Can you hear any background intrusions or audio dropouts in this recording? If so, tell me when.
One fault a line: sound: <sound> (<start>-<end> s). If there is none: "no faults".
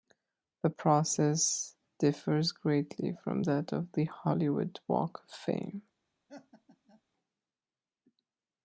sound: laugh (6.3-7.0 s)